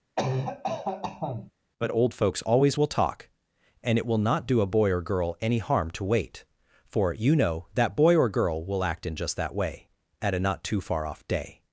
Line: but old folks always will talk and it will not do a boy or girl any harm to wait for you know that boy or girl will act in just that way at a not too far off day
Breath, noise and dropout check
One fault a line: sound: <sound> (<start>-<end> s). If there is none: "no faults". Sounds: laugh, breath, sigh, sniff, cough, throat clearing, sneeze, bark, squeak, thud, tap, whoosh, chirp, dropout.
sound: cough (0.2-1.5 s)